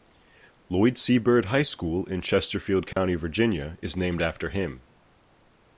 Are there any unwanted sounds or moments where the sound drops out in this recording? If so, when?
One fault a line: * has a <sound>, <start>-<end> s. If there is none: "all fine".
* has a dropout, 2.9-3.0 s